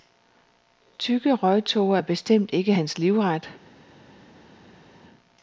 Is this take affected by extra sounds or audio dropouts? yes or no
no